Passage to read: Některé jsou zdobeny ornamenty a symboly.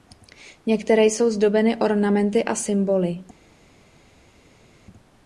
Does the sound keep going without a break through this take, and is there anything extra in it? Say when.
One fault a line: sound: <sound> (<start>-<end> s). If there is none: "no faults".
no faults